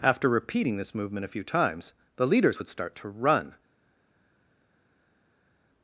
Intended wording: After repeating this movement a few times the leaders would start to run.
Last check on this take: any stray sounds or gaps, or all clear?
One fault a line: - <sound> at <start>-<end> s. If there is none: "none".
none